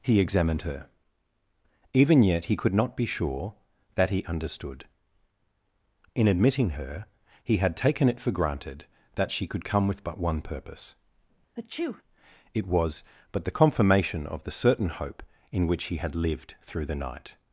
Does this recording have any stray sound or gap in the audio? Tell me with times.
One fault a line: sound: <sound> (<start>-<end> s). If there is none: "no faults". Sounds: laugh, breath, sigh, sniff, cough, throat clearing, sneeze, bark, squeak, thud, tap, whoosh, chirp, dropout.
sound: sneeze (11.6-12.0 s)